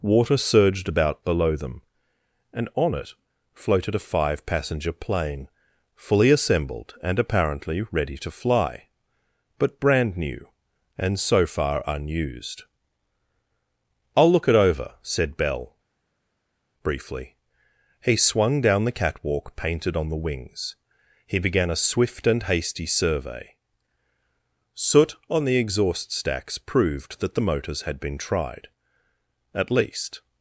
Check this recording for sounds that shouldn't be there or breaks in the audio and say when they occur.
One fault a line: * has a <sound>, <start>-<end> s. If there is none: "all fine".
all fine